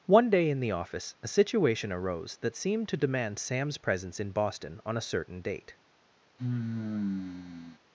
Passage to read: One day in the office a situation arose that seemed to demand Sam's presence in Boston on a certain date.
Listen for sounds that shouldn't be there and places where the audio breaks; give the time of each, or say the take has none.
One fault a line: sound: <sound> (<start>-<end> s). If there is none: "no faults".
sound: sigh (6.4-7.8 s)